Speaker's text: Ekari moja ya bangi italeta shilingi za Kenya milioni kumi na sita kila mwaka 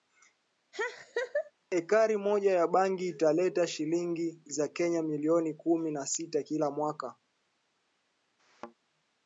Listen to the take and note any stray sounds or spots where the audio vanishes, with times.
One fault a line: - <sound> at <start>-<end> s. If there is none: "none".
- laugh at 0.7-1.5 s
- thud at 8.4-8.7 s